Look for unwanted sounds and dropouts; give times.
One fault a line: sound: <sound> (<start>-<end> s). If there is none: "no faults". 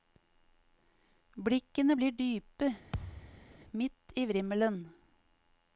sound: thud (2.9-3.5 s)